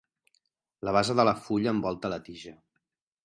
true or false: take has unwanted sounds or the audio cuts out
false